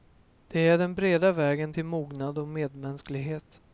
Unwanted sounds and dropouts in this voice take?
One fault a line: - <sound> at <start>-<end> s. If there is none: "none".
none